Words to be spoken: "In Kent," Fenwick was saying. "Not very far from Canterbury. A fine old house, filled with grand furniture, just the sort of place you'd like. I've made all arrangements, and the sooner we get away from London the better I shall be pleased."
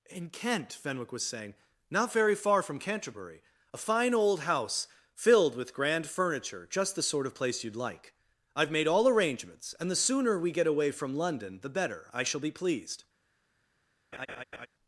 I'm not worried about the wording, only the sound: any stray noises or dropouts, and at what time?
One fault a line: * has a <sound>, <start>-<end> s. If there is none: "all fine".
* has a laugh, 14.1-14.7 s